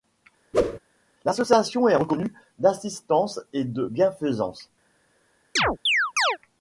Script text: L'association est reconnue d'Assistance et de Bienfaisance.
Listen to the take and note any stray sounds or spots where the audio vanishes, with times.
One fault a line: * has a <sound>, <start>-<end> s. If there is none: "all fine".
* has a whoosh, 0.5-0.8 s
* has a chirp, 5.6-6.4 s